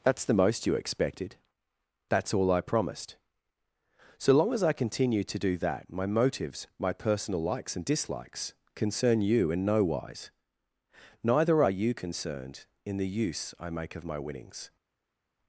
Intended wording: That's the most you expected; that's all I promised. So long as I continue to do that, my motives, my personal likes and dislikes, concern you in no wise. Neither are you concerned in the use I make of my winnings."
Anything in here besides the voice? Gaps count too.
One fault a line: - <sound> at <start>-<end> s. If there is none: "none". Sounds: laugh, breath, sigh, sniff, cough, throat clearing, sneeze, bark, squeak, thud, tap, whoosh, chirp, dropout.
none